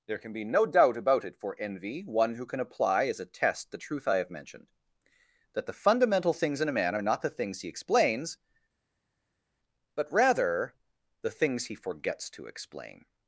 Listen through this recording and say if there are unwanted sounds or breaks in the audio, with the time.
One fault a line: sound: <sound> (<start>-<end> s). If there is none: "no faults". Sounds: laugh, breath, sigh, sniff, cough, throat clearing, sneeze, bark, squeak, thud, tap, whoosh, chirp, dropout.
no faults